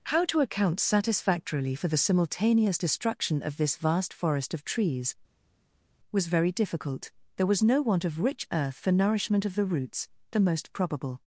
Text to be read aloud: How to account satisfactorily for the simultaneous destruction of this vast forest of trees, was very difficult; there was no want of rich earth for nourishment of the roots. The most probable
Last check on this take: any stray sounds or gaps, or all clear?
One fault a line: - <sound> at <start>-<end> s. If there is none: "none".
none